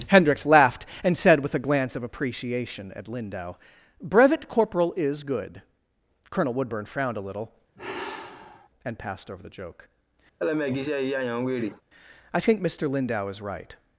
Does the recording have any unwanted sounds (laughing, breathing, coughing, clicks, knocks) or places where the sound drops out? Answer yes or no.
yes